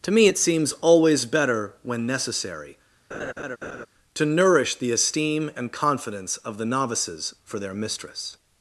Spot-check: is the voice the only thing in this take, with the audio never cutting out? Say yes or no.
no